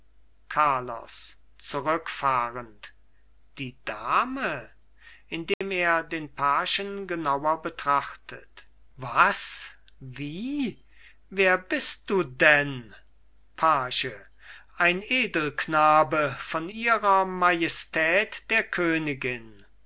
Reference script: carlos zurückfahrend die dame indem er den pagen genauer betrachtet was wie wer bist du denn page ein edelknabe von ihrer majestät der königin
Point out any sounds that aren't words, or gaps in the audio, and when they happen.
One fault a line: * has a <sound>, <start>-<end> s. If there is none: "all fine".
* has a dropout, 5.5-5.6 s